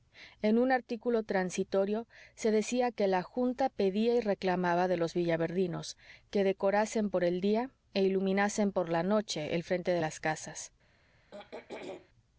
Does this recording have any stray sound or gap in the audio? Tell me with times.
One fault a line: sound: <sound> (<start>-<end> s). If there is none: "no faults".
sound: throat clearing (11.3-12.1 s)